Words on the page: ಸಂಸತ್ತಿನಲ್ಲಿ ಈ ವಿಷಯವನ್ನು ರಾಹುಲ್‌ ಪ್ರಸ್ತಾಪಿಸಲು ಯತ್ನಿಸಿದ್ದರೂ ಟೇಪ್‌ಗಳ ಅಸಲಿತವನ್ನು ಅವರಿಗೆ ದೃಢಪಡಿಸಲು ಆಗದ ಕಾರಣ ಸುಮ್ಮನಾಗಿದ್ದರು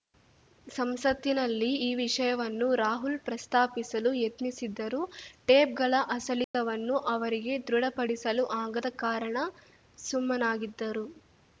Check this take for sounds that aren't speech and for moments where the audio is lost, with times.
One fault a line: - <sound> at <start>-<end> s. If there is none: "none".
- dropout at 6.4-6.5 s